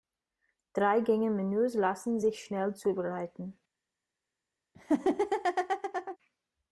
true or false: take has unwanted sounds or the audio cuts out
true